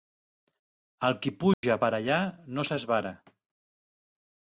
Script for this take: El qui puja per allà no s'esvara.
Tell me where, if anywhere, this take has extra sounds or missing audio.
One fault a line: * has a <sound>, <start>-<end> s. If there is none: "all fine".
* has a dropout, 1.5-1.6 s